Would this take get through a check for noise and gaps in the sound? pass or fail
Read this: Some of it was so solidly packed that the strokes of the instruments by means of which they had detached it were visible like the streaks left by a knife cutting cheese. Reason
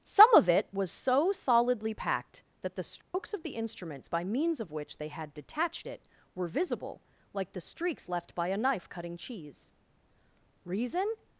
fail